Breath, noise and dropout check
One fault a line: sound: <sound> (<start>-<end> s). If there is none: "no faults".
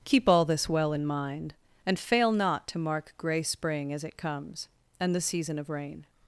no faults